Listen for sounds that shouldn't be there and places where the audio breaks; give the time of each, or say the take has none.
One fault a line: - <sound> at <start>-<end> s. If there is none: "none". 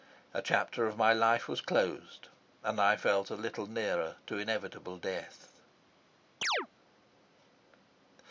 - chirp at 6.4-6.7 s